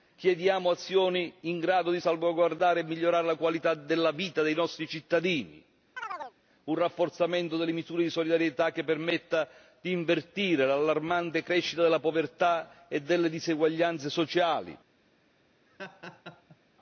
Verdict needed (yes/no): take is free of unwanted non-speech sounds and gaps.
no